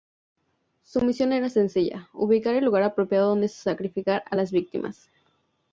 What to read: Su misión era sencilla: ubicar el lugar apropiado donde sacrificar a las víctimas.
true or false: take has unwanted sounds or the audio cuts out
false